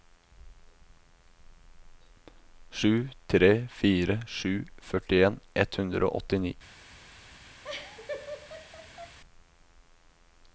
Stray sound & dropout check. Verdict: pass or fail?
fail